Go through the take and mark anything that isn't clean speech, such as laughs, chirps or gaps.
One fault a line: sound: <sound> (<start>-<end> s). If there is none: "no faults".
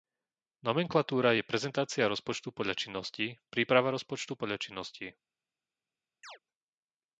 sound: chirp (6.2-6.4 s)